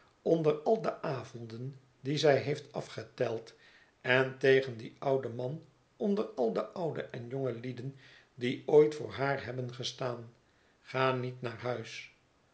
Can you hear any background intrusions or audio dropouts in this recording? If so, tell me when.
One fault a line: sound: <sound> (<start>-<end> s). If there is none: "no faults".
no faults